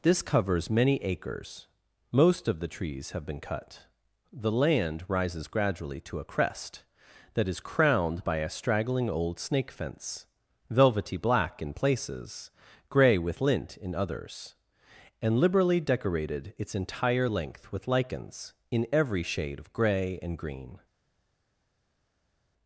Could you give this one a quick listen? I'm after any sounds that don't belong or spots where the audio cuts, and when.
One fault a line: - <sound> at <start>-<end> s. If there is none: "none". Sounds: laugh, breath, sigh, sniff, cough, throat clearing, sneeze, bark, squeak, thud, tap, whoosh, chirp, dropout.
none